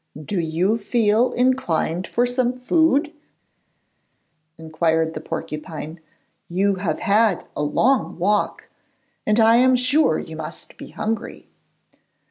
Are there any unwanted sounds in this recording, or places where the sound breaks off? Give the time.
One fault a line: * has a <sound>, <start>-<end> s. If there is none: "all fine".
all fine